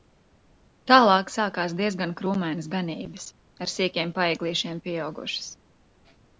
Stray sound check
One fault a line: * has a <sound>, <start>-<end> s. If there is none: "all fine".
all fine